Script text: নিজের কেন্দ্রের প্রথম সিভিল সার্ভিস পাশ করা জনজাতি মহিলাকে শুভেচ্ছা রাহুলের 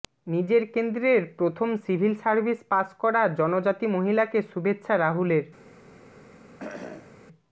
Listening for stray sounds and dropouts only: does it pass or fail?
fail